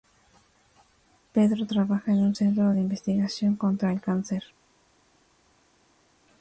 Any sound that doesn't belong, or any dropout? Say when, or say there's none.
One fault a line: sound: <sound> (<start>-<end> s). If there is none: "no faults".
no faults